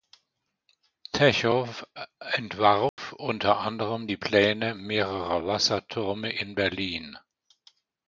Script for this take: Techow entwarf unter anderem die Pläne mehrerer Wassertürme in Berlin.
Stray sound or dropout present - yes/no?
yes